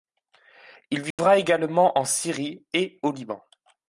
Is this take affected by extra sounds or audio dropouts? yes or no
yes